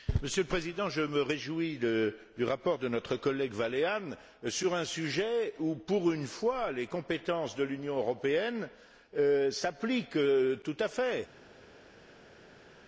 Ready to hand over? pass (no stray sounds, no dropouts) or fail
pass